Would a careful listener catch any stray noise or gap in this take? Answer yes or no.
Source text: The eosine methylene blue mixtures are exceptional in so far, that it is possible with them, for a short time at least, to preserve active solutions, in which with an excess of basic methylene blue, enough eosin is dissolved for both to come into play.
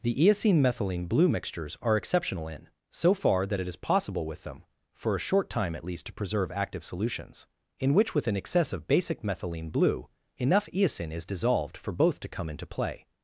no